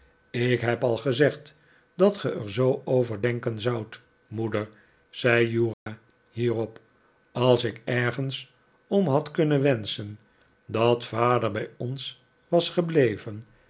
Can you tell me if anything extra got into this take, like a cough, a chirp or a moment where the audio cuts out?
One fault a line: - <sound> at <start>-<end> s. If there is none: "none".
- dropout at 5.7-5.9 s